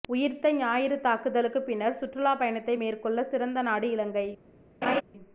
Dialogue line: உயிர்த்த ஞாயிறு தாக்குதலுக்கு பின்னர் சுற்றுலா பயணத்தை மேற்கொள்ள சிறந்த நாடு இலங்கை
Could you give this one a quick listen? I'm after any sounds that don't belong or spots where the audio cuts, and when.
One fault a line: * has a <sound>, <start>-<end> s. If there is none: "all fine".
* has a laugh, 4.8-5.0 s